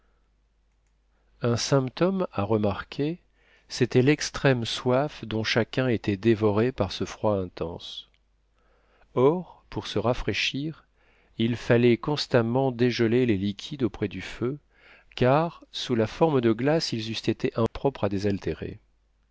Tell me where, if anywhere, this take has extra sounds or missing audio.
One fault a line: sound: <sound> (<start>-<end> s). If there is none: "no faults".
sound: dropout (17.7-17.7 s)